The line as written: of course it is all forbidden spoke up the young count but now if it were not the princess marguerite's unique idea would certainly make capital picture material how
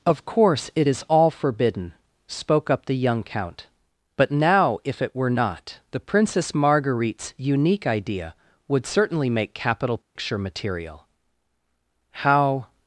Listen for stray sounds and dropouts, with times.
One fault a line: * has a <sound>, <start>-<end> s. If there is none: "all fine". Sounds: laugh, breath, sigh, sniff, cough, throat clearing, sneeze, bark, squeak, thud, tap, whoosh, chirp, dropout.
* has a dropout, 10.0-10.2 s